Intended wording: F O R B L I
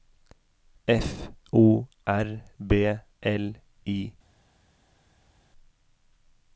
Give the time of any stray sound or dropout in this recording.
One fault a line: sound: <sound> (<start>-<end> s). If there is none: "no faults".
no faults